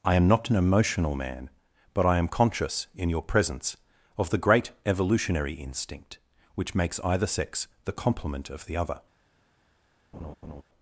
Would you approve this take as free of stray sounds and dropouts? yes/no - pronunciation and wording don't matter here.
no